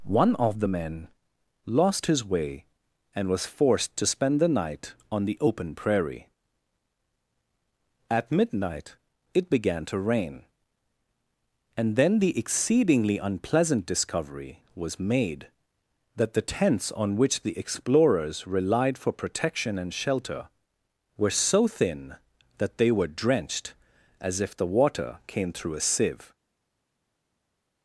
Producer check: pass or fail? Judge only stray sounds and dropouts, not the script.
pass